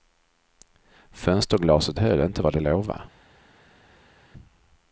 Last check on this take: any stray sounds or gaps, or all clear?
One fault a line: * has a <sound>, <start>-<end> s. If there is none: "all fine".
all fine